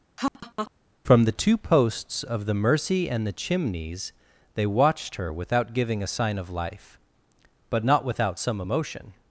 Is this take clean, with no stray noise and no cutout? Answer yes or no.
no